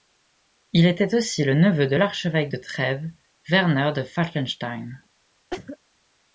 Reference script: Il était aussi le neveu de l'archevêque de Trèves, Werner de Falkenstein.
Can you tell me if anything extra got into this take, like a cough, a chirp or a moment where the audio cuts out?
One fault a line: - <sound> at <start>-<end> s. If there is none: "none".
- cough at 5.5-5.8 s